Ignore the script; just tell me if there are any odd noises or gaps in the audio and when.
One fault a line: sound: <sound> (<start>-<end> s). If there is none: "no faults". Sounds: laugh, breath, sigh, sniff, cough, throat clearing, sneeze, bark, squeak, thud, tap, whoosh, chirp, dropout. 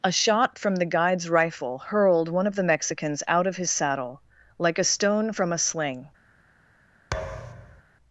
sound: thud (7.1-7.8 s)